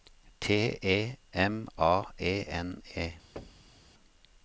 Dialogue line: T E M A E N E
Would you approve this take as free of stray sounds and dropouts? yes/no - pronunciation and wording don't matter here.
no